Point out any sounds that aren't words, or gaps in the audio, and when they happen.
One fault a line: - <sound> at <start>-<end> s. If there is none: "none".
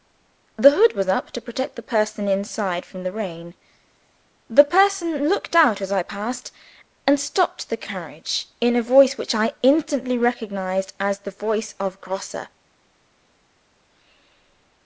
none